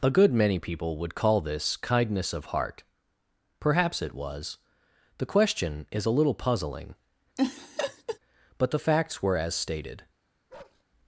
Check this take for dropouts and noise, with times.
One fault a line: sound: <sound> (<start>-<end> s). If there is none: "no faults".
sound: laugh (7.4-8.2 s)
sound: bark (10.5-10.8 s)